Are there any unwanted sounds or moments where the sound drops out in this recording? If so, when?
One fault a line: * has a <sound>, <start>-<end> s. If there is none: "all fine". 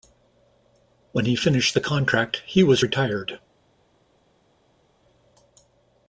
all fine